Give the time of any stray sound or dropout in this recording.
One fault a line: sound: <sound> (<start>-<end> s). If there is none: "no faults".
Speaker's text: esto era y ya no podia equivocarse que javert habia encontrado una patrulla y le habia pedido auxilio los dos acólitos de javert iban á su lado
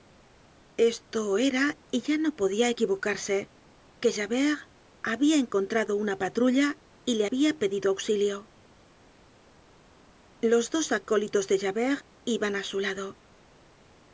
no faults